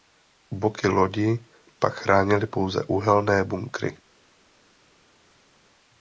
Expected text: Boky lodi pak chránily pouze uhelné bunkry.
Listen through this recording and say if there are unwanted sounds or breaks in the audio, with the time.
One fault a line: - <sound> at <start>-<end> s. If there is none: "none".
none